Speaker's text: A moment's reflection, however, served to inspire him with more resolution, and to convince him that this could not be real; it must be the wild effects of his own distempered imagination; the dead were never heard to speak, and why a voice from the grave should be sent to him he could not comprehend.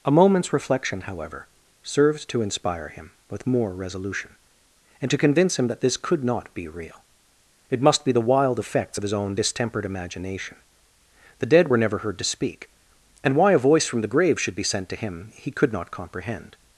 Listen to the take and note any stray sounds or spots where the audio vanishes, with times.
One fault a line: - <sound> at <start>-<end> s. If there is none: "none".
none